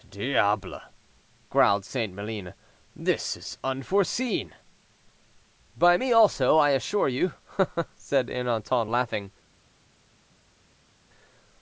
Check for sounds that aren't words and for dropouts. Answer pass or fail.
pass